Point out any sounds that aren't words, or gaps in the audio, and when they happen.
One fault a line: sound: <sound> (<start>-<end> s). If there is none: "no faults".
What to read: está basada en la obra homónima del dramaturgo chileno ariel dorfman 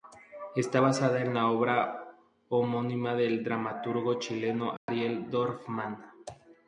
sound: dropout (4.8-4.9 s)